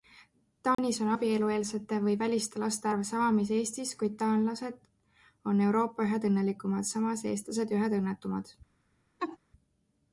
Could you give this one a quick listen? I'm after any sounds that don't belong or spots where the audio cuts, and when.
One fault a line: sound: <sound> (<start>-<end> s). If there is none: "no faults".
sound: dropout (0.7-0.8 s)
sound: laugh (9.2-9.4 s)